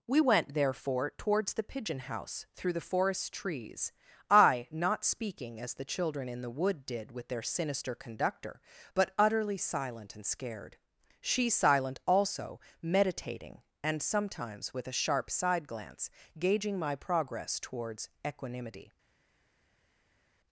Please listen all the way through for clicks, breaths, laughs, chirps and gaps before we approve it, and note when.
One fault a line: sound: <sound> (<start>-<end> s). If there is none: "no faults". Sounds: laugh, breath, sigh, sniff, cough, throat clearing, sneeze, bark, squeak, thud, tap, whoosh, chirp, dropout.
no faults